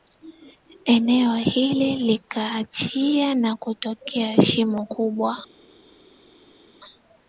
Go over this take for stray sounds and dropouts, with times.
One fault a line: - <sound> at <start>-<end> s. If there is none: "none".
none